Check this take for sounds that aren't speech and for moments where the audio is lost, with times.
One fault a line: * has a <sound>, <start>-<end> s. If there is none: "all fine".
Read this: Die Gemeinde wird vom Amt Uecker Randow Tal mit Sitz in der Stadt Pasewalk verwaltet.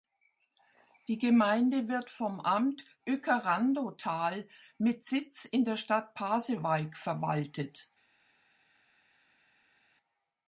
all fine